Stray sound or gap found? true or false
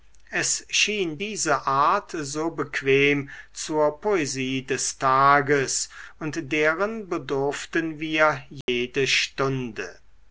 true